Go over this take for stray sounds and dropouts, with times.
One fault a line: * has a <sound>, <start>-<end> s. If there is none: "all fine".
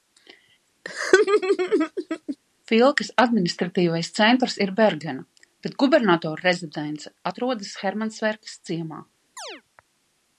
* has a laugh, 0.8-2.4 s
* has a chirp, 9.4-9.6 s